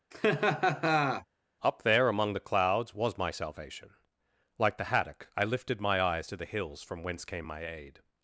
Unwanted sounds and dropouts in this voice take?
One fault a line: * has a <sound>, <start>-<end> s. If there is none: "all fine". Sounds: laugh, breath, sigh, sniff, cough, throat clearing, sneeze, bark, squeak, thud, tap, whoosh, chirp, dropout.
* has a laugh, 0.1-1.3 s